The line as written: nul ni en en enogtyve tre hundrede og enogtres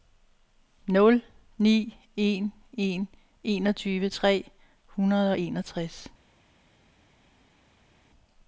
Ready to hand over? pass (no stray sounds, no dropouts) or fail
pass